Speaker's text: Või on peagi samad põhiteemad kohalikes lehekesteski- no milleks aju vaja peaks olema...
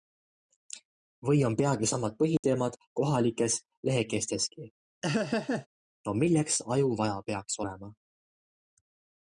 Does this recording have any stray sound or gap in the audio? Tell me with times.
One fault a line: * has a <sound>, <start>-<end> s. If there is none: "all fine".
* has a dropout, 2.4-2.4 s
* has a laugh, 5.0-5.7 s